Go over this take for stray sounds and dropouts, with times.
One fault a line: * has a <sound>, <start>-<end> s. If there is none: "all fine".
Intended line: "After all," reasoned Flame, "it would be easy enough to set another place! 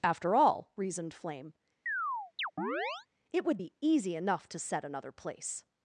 * has a chirp, 1.9-3.1 s